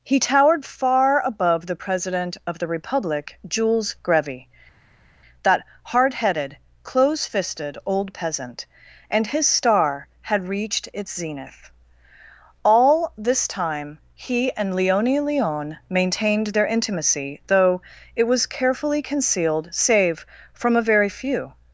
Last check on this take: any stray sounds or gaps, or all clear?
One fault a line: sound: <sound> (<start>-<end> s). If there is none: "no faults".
no faults